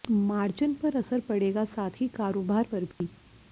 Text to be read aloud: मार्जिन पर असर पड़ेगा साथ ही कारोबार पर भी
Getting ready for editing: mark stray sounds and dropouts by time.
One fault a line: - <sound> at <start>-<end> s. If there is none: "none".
- dropout at 2.9-3.0 s